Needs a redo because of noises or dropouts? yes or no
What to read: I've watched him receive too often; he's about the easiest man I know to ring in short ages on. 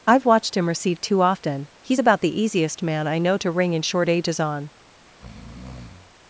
yes